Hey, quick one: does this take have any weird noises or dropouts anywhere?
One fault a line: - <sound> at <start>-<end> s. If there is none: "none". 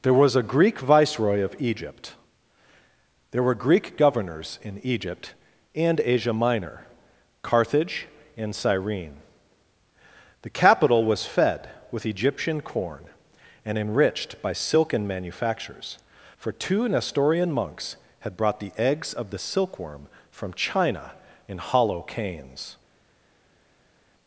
none